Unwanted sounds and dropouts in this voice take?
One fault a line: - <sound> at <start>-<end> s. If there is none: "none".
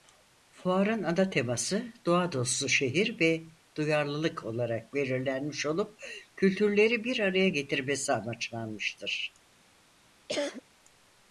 - cough at 10.3-10.6 s